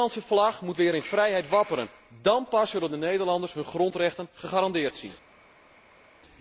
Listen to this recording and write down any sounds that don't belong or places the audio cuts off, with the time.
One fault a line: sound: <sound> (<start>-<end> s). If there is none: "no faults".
no faults